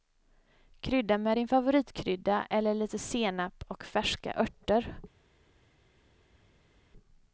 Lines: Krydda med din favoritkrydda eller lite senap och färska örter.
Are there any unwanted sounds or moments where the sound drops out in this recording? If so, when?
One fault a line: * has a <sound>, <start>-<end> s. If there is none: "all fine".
all fine